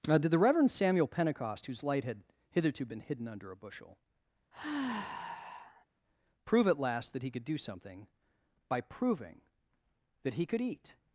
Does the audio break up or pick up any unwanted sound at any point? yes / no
yes